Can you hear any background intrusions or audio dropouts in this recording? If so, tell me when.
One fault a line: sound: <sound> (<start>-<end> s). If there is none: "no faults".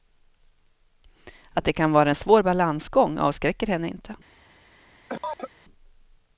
sound: cough (5.1-5.5 s)